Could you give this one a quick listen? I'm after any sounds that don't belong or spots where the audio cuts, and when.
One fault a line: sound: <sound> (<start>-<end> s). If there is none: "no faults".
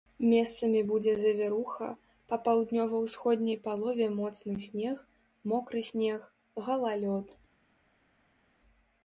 no faults